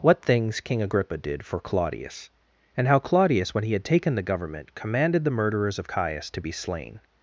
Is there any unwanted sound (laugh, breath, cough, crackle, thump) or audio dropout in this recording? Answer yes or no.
no